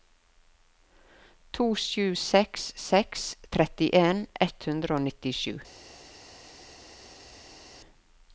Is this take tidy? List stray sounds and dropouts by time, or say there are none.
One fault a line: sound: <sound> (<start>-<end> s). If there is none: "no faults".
no faults